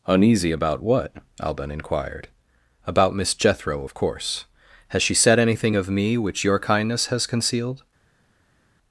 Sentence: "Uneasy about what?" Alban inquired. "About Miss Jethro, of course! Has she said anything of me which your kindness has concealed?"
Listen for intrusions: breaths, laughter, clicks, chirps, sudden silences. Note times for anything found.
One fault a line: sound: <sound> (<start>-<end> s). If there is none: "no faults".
no faults